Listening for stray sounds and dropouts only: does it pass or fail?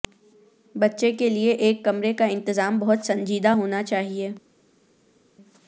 pass